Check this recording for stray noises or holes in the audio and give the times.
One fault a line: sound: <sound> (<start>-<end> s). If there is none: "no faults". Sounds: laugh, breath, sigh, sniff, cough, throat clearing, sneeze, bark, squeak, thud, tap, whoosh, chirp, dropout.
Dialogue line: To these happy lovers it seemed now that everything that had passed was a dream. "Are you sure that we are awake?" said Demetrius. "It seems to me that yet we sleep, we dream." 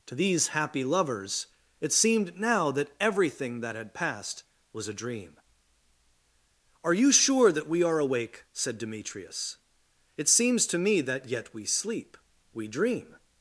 no faults